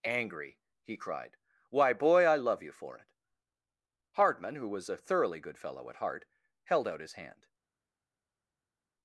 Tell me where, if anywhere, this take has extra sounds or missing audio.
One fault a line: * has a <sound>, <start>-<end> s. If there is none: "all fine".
all fine